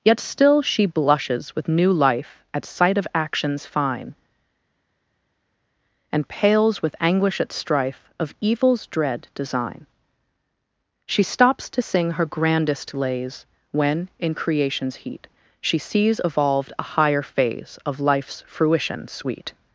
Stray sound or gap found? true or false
false